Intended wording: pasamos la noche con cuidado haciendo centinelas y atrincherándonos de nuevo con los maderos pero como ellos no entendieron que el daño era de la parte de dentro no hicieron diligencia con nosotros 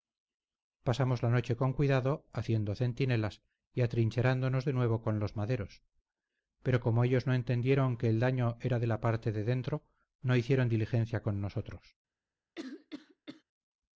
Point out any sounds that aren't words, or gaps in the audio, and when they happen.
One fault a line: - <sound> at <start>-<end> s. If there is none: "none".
- cough at 12.6-13.4 s